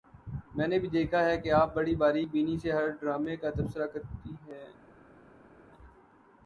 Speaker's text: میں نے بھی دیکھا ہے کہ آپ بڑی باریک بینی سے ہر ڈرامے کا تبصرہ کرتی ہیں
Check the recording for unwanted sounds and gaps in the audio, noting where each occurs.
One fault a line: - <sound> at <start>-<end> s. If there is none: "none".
none